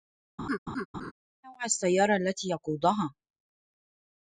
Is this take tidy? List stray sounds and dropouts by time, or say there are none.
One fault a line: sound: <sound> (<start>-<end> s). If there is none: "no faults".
sound: laugh (0.4-1.1 s)